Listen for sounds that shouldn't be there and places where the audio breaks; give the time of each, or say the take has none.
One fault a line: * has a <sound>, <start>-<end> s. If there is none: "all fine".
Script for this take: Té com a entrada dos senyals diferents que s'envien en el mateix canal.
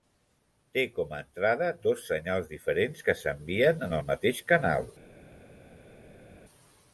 all fine